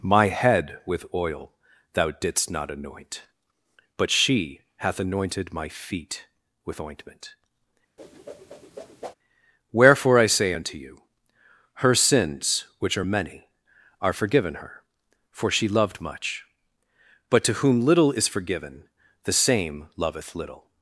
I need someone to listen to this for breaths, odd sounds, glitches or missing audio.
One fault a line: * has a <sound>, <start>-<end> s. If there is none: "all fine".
* has a whoosh, 8.0-9.1 s